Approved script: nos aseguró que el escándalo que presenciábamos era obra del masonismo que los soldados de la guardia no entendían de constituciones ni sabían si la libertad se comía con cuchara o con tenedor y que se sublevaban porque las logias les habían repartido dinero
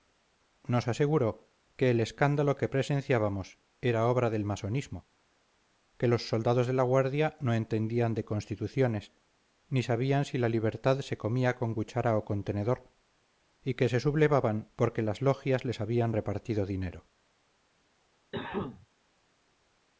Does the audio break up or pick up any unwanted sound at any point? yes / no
yes